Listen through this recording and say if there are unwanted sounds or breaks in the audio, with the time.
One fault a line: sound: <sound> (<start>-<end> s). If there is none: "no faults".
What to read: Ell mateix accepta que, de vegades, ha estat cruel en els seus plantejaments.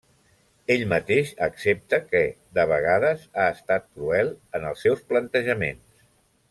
no faults